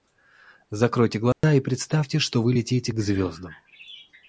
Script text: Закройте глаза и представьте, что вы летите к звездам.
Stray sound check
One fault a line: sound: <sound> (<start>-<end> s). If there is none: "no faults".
sound: dropout (1.3-1.4 s)